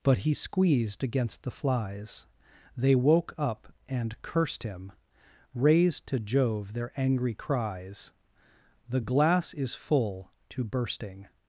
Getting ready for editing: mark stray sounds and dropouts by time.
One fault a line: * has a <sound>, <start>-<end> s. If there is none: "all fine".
all fine